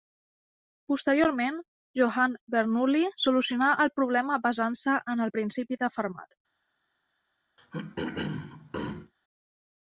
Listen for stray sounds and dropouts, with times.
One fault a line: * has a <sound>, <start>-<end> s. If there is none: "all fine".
* has a throat clearing, 7.6-9.1 s